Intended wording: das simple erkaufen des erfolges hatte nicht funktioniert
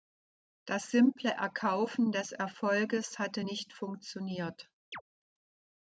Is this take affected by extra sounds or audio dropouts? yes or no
yes